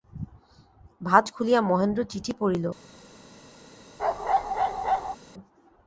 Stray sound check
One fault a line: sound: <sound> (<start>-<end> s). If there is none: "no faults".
sound: bark (4.0-5.2 s)